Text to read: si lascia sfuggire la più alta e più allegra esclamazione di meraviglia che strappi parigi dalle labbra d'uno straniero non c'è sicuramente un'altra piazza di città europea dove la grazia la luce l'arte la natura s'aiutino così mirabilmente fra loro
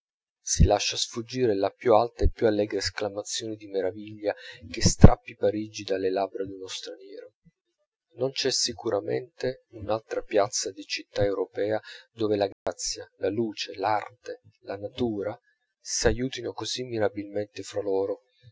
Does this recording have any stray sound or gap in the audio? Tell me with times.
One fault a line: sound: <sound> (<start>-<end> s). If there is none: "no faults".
sound: dropout (12.5-12.7 s)